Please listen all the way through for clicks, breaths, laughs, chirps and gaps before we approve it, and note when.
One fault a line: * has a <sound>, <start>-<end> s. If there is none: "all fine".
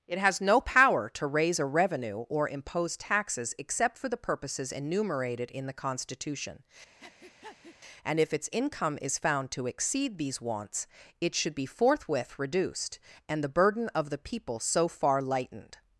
* has a breath, 7.0-7.8 s